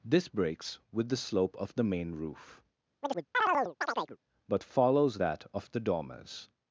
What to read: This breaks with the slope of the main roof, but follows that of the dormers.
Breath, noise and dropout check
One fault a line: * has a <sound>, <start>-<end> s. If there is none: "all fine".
* has a chirp, 3.0-4.2 s